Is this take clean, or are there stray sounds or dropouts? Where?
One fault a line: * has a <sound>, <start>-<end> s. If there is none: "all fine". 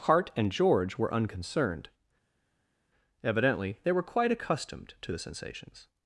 all fine